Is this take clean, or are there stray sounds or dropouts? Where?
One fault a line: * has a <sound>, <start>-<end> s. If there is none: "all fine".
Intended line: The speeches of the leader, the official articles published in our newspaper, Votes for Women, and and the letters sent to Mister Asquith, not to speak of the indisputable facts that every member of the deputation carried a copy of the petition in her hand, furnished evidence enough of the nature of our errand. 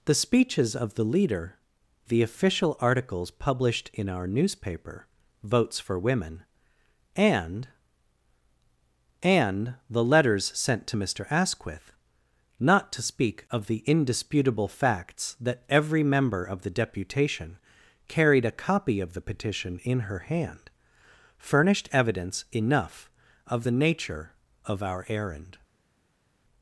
all fine